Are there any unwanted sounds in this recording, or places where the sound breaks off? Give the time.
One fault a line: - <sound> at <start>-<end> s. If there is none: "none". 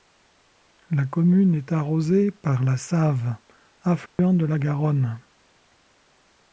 - dropout at 4.1-4.2 s